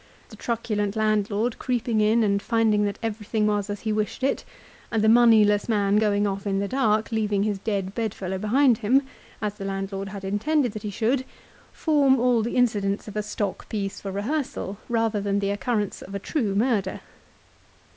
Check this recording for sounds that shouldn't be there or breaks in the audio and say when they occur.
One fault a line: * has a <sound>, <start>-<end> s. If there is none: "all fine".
all fine